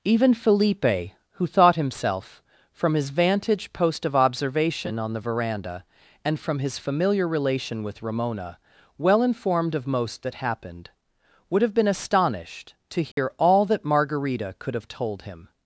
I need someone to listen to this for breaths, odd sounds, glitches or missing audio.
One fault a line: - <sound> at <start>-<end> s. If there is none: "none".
- dropout at 13.1-13.2 s